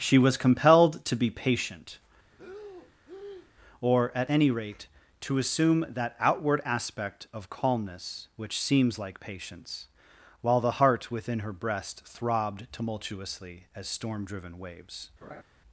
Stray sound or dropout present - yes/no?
yes